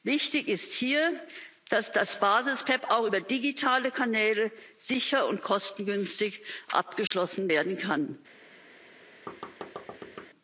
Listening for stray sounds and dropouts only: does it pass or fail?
fail